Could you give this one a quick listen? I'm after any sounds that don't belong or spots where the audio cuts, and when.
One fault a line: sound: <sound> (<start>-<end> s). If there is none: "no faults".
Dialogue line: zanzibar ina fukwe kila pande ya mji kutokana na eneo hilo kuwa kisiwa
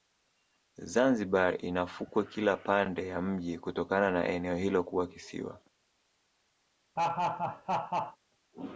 sound: laugh (7.0-8.2 s)